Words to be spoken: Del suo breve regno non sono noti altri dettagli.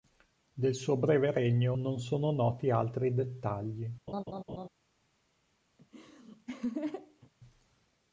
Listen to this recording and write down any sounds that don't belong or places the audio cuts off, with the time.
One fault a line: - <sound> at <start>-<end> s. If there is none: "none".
- laugh at 4.1-4.7 s
- laugh at 5.8-7.3 s